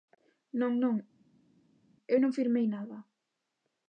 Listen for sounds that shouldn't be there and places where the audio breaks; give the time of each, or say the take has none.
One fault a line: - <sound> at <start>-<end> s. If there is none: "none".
none